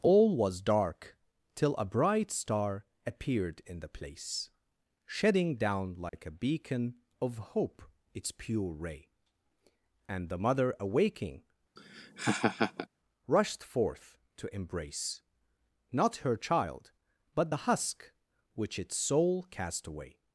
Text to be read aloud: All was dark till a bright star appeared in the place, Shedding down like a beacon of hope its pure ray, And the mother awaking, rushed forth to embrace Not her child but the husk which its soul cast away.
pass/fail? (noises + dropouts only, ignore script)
fail